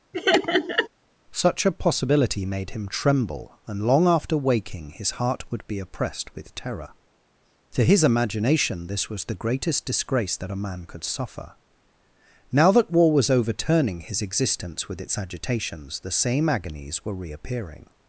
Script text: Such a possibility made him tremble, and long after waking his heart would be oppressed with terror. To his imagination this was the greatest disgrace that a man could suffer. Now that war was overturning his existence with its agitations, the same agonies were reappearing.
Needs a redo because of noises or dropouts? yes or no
yes